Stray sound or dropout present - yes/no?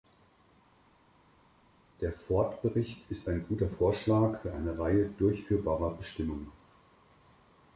no